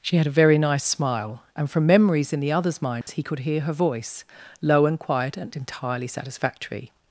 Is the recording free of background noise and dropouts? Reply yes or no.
no